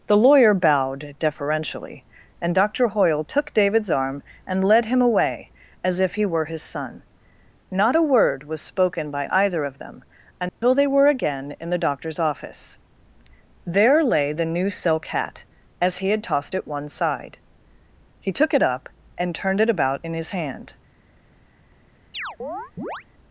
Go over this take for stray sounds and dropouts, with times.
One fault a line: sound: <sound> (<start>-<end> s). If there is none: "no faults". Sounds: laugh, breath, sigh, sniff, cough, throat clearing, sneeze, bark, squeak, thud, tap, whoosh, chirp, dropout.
sound: dropout (10.5-10.6 s)
sound: chirp (22.1-23.0 s)